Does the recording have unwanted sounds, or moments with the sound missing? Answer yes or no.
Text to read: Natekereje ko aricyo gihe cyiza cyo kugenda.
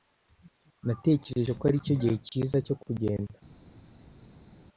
no